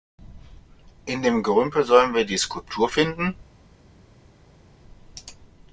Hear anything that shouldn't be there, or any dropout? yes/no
no